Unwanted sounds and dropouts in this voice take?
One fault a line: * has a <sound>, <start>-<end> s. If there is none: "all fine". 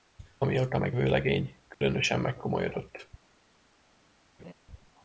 * has a dropout, 1.7-1.8 s
* has a laugh, 4.4-4.5 s